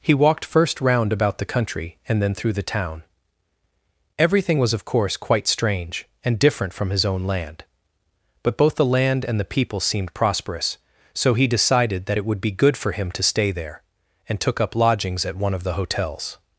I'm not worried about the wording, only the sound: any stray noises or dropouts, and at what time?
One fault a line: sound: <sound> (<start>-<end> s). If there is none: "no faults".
no faults